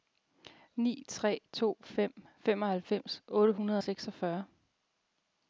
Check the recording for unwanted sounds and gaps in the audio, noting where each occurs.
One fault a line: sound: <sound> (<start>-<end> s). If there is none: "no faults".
no faults